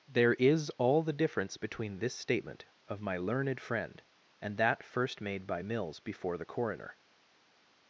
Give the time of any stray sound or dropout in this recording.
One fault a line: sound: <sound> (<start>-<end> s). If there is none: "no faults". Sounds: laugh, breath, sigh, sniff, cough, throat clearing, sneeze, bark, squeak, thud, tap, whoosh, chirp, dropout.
no faults